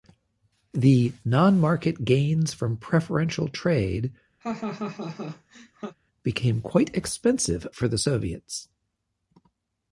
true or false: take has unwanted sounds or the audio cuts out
true